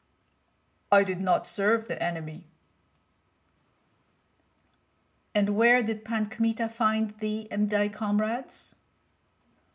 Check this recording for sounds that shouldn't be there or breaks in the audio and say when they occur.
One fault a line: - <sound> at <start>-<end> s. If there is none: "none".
none